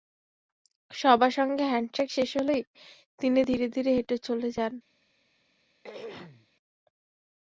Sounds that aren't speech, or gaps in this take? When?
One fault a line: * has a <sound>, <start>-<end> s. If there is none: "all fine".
* has a throat clearing, 5.8-6.5 s